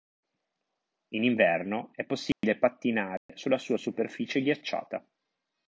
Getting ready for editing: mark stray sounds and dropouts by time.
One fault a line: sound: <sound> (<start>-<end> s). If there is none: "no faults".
sound: dropout (2.3-2.4 s)
sound: dropout (3.2-3.3 s)